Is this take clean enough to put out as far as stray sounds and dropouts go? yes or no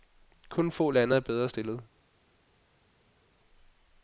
yes